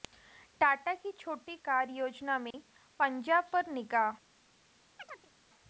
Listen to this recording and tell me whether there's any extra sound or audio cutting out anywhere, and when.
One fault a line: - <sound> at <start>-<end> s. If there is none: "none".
- dropout at 2.5-2.5 s
- chirp at 5.0-5.3 s